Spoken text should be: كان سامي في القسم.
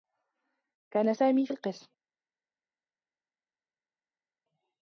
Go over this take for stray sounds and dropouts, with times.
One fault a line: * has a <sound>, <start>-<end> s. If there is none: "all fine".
all fine